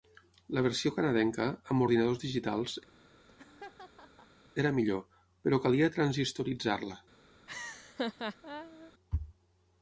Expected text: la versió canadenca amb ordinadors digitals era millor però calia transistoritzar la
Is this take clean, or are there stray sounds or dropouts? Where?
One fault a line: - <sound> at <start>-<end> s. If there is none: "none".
- laugh at 2.9-4.4 s
- laugh at 7.5-8.9 s